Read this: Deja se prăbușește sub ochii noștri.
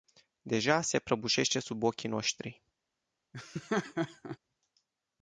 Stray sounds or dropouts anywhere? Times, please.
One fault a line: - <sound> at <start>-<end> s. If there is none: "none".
- laugh at 3.3-4.4 s